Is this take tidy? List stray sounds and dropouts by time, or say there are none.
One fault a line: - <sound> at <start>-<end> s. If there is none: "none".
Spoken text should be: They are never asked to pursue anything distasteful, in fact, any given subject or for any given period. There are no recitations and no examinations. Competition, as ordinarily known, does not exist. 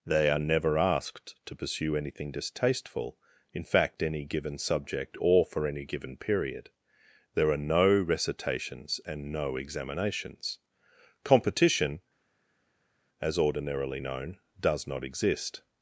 none